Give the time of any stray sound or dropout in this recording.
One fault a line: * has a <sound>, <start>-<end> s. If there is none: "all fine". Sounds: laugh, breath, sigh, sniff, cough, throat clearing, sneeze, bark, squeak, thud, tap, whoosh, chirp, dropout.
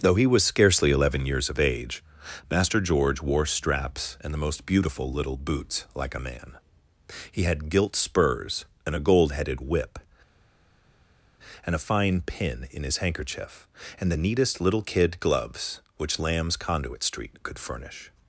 all fine